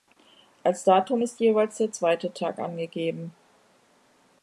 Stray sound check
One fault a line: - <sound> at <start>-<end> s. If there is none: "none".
none